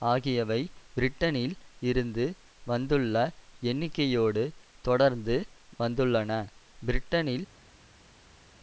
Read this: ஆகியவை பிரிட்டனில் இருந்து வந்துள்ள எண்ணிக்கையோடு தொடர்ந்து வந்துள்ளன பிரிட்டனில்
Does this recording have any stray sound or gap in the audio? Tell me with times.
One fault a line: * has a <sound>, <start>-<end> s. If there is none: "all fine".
all fine